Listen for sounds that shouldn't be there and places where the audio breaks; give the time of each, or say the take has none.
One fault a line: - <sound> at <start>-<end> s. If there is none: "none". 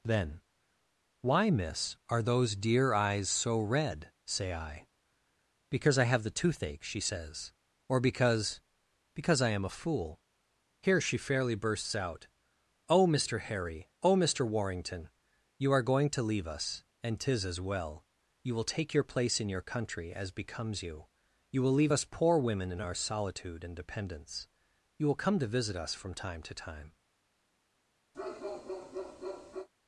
- bark at 28.1-29.7 s